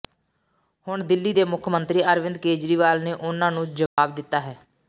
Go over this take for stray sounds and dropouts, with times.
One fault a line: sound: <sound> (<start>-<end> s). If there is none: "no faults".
sound: dropout (3.9-4.0 s)